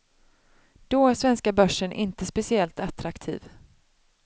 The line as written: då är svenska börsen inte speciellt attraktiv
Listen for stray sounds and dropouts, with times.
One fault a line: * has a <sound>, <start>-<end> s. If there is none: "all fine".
all fine